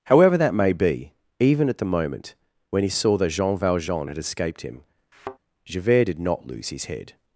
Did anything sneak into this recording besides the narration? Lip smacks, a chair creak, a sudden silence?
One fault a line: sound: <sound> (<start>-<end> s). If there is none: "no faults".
sound: thud (5.1-5.4 s)